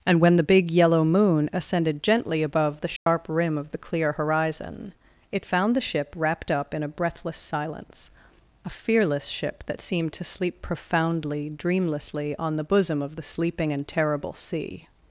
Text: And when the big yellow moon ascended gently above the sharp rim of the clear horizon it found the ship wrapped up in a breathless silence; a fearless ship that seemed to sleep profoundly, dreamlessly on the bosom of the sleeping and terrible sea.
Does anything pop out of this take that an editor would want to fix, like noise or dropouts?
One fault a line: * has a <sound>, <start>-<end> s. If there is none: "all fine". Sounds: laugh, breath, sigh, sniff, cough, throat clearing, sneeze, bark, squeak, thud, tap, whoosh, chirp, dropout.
* has a dropout, 3.0-3.1 s